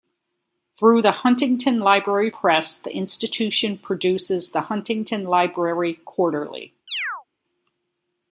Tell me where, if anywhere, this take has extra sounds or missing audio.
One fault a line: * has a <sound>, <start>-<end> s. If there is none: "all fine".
* has a chirp, 6.9-7.2 s